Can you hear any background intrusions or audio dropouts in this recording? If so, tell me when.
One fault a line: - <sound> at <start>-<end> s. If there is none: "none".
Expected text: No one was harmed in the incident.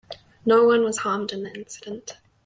none